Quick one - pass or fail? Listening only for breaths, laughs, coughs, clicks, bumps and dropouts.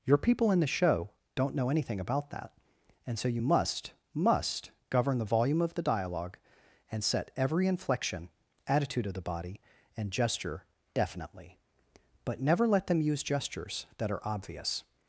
pass